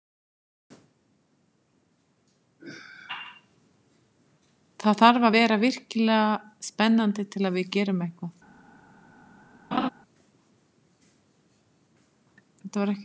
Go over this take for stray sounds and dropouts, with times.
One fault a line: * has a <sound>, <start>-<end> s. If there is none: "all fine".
* has a laugh, 9.7-9.9 s